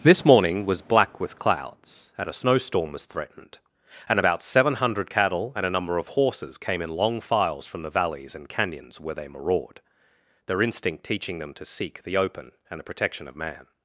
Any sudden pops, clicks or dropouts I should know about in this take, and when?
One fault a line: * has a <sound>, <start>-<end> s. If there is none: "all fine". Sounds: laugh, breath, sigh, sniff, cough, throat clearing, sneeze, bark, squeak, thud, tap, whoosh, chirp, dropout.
all fine